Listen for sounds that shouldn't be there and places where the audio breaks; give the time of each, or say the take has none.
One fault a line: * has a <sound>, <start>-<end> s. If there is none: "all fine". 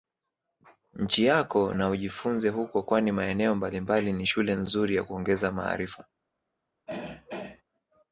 * has a throat clearing, 6.9-7.6 s